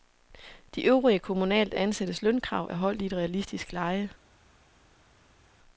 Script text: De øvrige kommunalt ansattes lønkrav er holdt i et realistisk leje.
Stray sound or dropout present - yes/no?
no